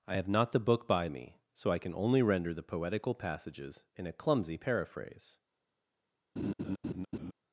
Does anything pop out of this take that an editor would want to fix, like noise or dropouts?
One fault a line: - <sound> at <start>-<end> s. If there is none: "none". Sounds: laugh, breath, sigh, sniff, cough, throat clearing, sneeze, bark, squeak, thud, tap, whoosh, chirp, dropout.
- laugh at 6.4-7.3 s